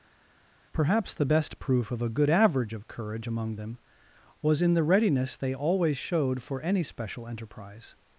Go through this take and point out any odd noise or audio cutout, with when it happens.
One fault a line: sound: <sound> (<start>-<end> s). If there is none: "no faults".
no faults